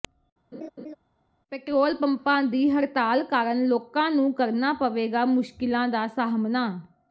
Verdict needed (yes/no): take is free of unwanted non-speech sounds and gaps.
no